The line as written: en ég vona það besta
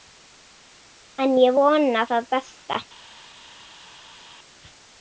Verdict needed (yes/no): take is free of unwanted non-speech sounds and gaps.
yes